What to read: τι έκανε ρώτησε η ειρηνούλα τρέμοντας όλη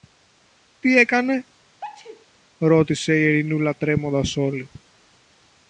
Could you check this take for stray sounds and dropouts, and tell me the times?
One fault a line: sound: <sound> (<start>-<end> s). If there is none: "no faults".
sound: sneeze (1.8-2.3 s)